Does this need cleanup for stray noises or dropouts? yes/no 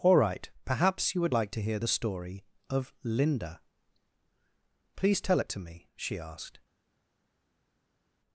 no